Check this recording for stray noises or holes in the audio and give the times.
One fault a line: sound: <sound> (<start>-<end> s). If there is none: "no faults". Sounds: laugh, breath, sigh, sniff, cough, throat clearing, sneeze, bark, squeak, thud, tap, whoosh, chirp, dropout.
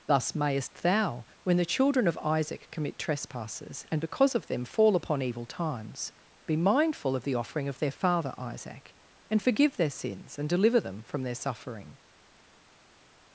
no faults